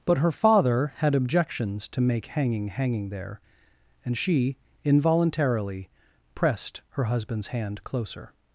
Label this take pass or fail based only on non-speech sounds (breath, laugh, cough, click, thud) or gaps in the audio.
pass